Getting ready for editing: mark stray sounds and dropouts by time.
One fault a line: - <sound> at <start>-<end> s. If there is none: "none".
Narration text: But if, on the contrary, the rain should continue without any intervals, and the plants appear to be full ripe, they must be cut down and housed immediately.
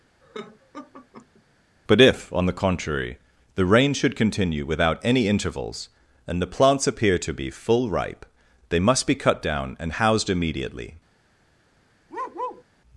- laugh at 0.2-1.4 s
- bark at 12.1-12.6 s